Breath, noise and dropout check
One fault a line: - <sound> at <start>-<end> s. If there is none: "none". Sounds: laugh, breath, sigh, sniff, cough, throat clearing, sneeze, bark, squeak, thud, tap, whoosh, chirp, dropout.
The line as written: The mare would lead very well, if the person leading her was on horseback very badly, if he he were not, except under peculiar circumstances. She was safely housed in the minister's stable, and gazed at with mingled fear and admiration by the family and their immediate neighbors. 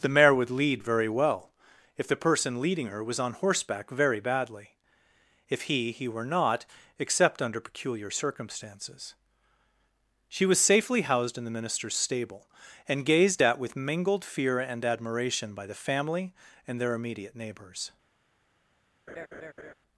- laugh at 19.1-19.7 s